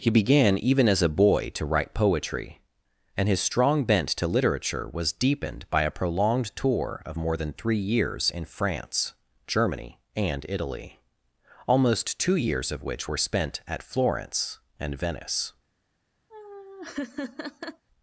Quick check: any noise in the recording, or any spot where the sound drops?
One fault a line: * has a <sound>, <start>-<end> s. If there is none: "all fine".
* has a laugh, 16.3-17.8 s